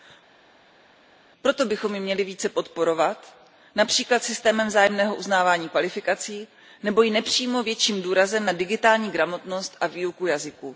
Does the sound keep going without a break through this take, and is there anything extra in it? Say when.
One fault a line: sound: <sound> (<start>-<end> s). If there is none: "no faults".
no faults